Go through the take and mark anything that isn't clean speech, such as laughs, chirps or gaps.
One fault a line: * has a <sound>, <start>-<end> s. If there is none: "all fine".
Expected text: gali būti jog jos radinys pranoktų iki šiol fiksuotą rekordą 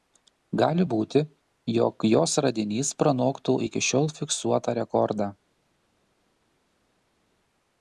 all fine